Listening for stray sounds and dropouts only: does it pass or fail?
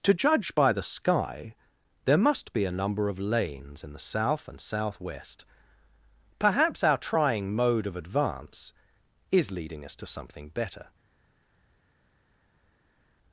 pass